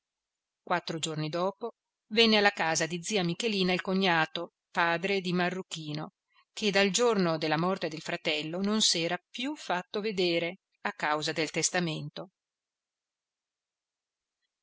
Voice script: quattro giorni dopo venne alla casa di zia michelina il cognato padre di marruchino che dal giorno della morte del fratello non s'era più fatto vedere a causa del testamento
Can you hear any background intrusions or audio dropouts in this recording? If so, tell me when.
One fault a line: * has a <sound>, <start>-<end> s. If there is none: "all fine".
all fine